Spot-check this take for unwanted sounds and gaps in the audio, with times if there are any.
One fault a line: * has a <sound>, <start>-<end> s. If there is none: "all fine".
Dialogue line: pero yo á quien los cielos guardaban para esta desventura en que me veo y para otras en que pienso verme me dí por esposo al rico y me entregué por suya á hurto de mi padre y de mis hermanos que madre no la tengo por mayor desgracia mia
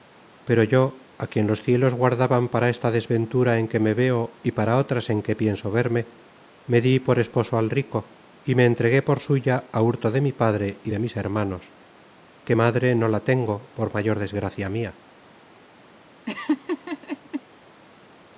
* has a laugh, 16.3-17.4 s